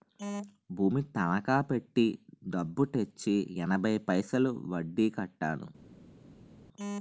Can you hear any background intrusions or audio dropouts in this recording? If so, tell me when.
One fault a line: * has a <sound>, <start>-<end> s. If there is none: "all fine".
all fine